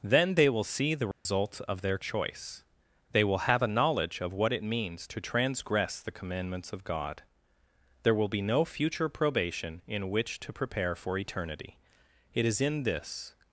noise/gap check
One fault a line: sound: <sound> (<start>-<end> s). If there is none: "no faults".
sound: dropout (1.1-1.3 s)